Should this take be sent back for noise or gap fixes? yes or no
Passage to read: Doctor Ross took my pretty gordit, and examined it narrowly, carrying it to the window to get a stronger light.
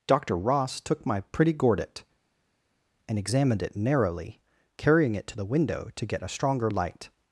no